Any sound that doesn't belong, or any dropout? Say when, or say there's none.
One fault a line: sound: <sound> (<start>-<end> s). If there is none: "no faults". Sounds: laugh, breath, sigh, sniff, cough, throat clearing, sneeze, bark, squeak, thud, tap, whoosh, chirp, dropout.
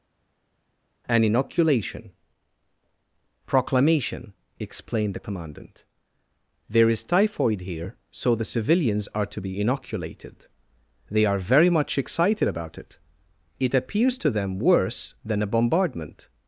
no faults